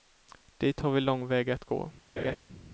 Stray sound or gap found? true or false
true